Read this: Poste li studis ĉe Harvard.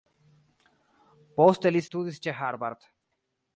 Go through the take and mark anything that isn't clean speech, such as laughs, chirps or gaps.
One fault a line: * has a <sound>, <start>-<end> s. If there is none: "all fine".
all fine